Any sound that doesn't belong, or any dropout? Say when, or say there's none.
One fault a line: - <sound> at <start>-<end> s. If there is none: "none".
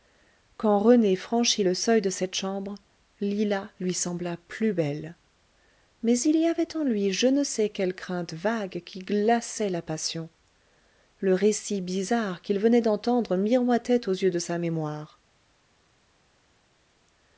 none